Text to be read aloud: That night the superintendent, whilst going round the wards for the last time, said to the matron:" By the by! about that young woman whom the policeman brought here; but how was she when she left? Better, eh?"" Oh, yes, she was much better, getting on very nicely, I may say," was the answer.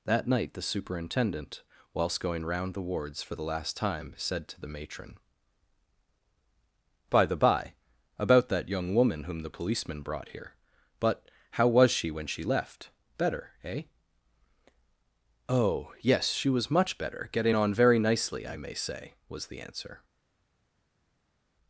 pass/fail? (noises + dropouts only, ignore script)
pass